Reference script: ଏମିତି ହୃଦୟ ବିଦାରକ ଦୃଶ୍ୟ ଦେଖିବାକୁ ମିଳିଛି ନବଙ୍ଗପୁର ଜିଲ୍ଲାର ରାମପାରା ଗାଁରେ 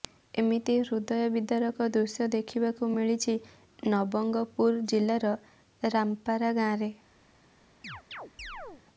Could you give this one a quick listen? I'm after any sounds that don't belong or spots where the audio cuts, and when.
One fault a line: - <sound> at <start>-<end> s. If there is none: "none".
- chirp at 7.8-8.8 s